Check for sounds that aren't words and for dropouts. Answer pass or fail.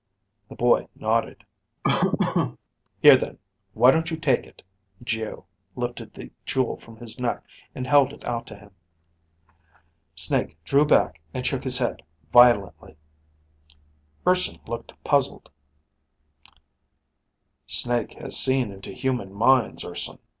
fail